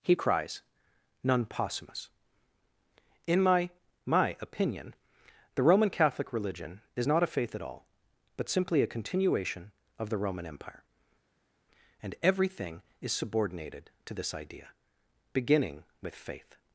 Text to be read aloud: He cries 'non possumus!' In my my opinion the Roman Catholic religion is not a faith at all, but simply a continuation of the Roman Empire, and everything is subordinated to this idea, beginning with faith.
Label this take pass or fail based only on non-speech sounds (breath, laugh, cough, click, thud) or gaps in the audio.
pass